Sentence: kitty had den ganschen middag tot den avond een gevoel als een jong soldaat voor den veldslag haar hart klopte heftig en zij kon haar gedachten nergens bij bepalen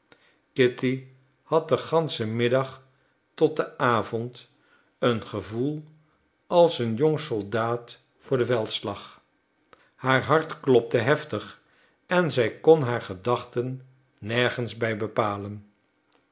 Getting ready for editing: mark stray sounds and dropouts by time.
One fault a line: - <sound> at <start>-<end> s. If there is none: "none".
none